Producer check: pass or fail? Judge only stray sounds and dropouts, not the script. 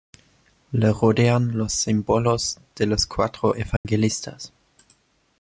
fail